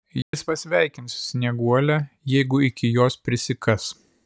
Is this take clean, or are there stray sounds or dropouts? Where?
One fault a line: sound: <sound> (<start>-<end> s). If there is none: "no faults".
sound: dropout (0.2-0.3 s)